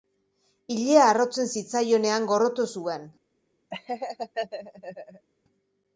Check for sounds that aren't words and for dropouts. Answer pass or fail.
fail